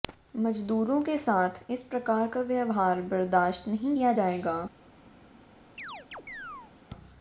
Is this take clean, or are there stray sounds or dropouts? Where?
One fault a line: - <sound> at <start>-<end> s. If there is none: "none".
- chirp at 5.8-6.7 s